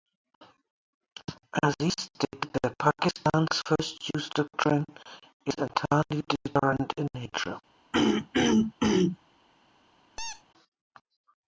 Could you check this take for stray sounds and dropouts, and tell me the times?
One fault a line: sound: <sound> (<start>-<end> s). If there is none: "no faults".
sound: throat clearing (7.9-9.2 s)
sound: squeak (10.2-10.4 s)